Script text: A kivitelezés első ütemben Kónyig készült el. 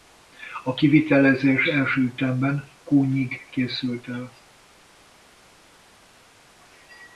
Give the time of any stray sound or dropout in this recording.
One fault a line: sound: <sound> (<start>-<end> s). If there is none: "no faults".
no faults